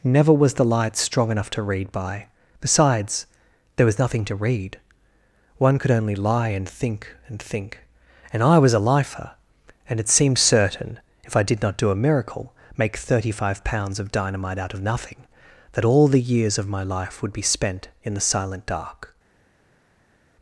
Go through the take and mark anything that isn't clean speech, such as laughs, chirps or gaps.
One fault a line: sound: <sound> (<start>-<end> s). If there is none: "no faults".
no faults